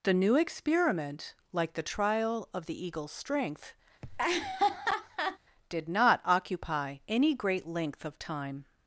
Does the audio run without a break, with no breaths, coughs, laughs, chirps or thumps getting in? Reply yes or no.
no